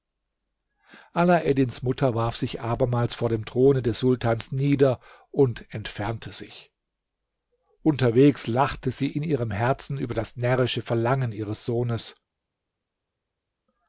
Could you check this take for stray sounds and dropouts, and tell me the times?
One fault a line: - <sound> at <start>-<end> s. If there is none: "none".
none